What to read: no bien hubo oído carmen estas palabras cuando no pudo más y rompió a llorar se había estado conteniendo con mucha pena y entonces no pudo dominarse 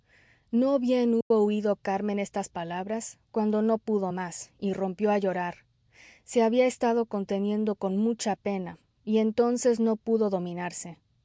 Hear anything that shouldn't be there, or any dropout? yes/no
yes